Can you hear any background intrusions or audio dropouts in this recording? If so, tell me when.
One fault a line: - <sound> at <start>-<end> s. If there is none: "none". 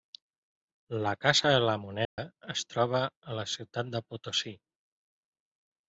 - dropout at 2.0-2.2 s